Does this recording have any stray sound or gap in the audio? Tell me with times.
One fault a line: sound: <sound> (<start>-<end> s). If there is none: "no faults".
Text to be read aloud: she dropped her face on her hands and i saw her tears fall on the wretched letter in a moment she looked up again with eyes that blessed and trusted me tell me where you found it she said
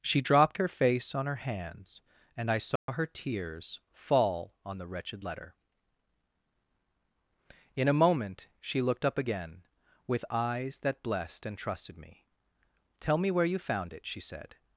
sound: dropout (2.8-2.9 s)